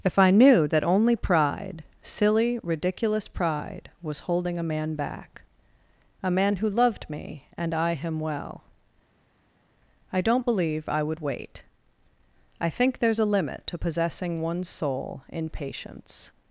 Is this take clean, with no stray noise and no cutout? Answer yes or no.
yes